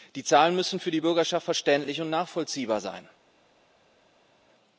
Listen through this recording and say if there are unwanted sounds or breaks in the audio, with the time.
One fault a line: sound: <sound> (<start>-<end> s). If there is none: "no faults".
no faults